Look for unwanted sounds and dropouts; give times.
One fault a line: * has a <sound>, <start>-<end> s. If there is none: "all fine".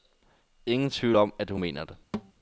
* has a thud, 2.1-2.3 s